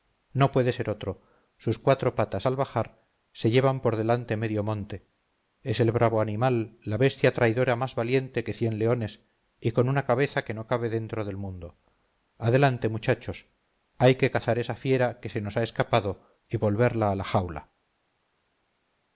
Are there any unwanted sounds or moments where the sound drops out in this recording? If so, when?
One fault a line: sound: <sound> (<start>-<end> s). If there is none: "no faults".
no faults